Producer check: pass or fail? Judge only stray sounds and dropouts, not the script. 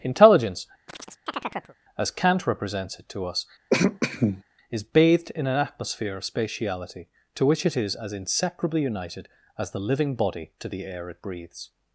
fail